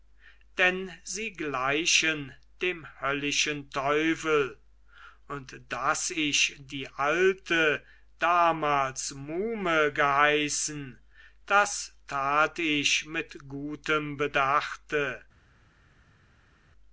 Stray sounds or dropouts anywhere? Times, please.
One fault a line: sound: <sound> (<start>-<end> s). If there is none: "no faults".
no faults